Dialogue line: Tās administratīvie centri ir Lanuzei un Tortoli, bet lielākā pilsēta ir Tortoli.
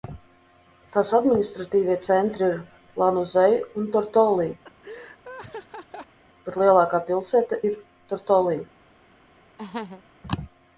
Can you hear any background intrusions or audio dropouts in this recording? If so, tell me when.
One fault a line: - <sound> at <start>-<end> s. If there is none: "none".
- laugh at 4.6-6.2 s
- laugh at 9.6-10.0 s